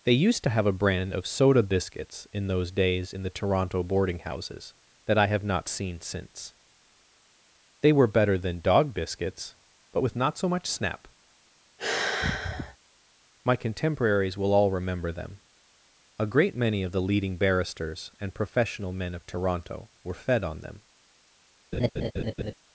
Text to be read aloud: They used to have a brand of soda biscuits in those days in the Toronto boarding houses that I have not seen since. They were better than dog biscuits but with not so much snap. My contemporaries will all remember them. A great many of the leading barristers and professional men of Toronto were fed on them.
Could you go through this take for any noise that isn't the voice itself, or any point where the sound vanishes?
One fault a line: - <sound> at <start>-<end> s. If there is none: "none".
- sigh at 11.8-12.8 s
- laugh at 21.7-22.5 s